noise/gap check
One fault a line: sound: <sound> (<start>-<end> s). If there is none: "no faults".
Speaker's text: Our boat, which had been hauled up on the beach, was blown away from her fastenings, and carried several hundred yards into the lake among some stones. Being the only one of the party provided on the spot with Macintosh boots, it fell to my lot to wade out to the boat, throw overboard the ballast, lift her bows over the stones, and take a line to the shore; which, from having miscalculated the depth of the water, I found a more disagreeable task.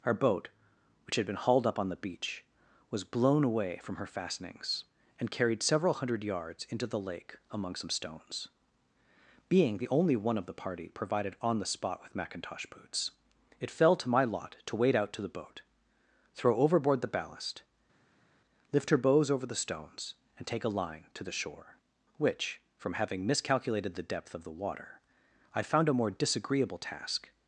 no faults